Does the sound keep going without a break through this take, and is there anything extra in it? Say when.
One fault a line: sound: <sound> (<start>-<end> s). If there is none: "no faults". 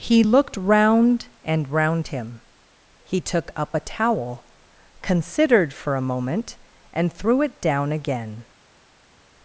no faults